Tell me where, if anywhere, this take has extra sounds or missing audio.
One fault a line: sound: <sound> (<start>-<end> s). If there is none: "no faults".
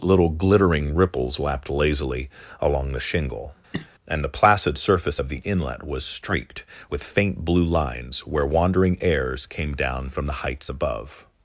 sound: cough (3.7-3.9 s)